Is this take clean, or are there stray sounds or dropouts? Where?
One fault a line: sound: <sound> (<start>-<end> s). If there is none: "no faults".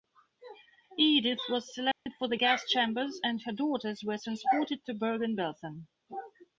sound: dropout (1.9-2.1 s)